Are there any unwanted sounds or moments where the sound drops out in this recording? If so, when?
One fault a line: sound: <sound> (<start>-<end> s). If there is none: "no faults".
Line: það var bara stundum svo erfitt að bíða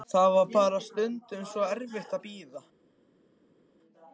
no faults